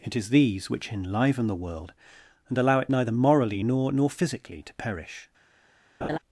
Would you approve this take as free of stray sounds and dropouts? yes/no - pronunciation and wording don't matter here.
no